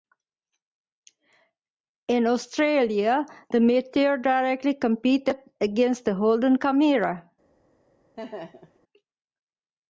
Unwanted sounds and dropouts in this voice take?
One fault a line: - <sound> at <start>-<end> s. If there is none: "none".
- laugh at 8.2-8.8 s